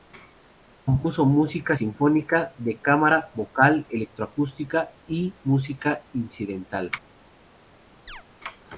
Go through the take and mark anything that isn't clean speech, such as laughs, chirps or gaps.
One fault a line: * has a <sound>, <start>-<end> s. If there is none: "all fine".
* has a chirp, 8.1-8.2 s